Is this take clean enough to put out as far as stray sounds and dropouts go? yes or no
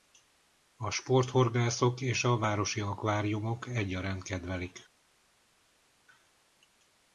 yes